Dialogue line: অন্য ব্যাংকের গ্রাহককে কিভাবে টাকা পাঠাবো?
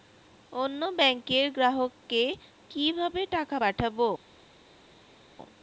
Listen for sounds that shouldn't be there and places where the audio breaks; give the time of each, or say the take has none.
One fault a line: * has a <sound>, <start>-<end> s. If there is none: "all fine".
all fine